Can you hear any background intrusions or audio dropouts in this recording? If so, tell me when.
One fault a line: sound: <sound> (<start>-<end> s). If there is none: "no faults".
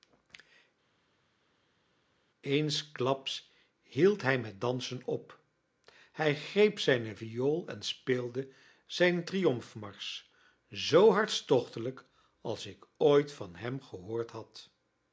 no faults